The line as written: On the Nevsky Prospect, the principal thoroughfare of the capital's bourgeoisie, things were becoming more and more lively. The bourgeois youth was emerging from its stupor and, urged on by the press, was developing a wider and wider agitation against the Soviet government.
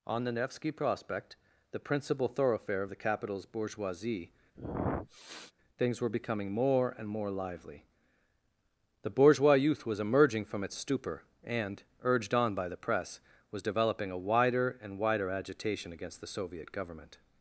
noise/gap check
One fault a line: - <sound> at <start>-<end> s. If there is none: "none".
- sniff at 4.5-5.5 s